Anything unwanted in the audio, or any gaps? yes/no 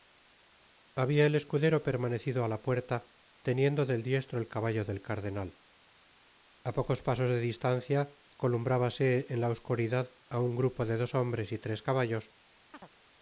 yes